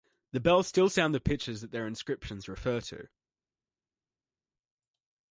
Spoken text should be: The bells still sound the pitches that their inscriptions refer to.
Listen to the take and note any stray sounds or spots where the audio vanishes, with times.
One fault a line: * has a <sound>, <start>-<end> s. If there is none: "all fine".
all fine